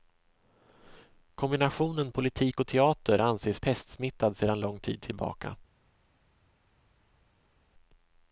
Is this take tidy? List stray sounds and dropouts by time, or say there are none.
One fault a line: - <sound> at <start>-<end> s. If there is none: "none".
none